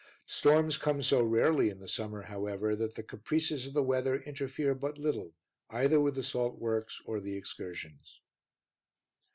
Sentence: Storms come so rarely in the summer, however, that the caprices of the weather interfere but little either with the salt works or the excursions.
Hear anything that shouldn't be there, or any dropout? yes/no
no